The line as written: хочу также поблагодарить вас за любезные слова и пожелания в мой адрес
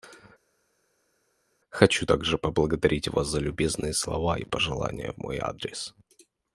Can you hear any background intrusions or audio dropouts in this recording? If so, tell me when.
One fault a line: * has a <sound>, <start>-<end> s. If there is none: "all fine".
all fine